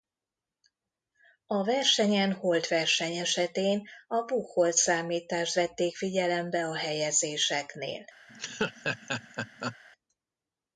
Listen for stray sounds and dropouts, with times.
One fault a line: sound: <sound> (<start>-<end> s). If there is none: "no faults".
sound: laugh (8.3-9.8 s)